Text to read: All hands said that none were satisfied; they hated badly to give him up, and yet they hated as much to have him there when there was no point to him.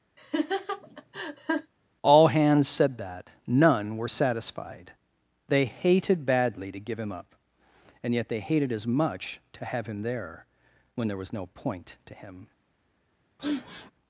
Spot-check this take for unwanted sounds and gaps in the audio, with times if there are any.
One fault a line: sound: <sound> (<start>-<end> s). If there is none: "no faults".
sound: laugh (0.2-1.7 s)
sound: sniff (13.4-13.9 s)